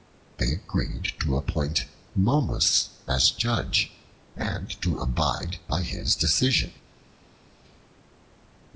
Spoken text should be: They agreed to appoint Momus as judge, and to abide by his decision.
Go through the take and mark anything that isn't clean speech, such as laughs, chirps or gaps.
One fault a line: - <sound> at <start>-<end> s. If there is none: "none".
none